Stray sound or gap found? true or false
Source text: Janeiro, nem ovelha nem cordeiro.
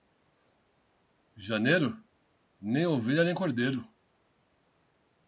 false